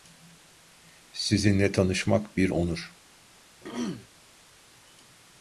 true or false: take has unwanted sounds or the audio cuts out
true